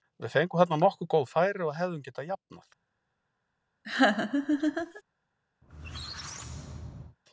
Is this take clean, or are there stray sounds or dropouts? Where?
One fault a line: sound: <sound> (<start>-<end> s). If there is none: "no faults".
sound: laugh (3.8-5.0 s)
sound: squeak (5.6-7.2 s)